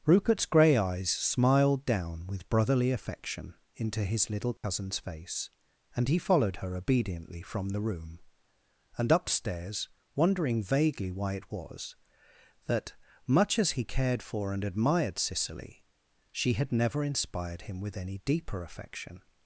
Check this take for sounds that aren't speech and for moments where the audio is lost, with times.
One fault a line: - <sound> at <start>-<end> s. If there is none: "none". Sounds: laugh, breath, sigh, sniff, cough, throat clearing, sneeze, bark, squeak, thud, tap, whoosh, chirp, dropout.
- dropout at 4.6-4.6 s